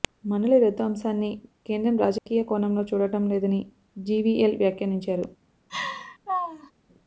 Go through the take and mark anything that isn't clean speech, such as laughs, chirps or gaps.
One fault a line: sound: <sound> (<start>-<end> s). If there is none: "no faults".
sound: dropout (2.2-2.3 s)
sound: laugh (5.7-6.7 s)